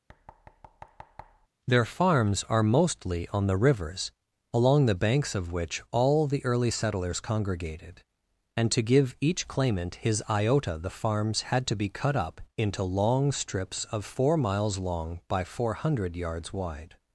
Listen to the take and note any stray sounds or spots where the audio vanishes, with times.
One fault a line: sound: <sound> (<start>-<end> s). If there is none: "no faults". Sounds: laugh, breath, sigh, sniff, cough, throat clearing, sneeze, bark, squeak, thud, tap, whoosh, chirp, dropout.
sound: thud (0.1-1.5 s)